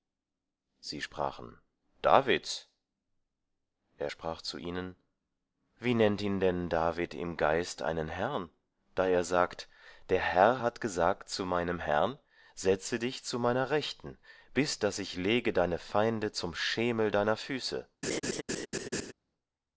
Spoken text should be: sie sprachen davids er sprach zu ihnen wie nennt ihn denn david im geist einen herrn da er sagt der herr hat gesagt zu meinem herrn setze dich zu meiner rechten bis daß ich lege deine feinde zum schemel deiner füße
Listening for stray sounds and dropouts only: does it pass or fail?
fail